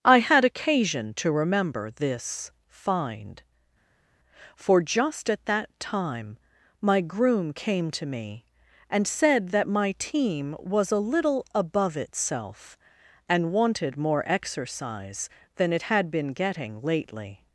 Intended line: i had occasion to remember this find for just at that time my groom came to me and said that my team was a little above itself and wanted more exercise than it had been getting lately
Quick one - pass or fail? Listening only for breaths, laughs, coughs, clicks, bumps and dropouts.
pass